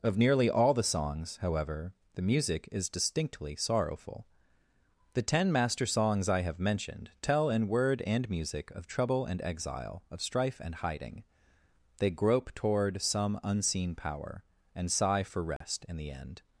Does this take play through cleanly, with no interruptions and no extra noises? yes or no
no